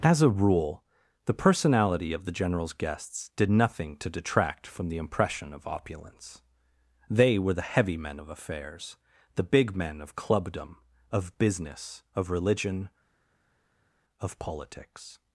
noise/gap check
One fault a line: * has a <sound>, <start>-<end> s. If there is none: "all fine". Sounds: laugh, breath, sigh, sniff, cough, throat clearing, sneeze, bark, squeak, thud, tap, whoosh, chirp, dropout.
all fine